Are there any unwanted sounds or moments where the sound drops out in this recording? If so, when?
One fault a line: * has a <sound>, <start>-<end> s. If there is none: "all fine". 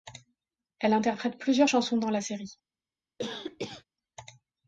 * has a cough, 3.2-3.8 s